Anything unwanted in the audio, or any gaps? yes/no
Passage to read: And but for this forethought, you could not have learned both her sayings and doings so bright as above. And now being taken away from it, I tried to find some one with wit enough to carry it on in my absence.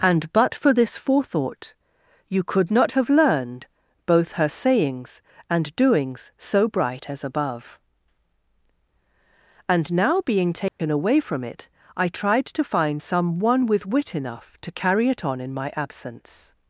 yes